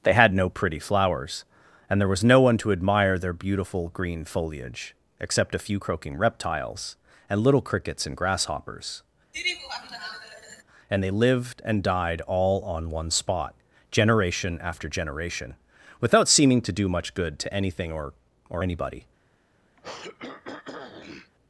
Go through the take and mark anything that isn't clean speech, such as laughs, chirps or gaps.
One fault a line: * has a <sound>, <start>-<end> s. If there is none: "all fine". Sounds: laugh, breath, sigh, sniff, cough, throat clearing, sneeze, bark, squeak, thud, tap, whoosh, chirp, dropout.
* has a laugh, 9.3-10.6 s
* has a throat clearing, 19.8-21.3 s